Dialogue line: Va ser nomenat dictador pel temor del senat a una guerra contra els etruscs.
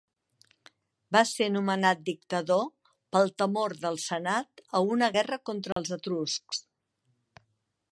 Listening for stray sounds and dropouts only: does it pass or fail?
fail